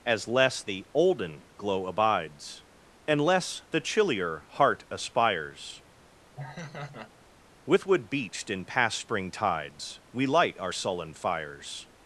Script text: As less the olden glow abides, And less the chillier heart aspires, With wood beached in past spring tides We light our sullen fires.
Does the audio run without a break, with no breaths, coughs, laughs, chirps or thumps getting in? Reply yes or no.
no